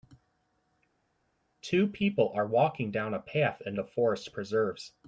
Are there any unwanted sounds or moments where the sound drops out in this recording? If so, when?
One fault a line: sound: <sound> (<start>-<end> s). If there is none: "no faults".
no faults